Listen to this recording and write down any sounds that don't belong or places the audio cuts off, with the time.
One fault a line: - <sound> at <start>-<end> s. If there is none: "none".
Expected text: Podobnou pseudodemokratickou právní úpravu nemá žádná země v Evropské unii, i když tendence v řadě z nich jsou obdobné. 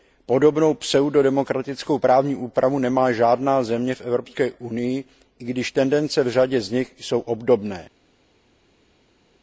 none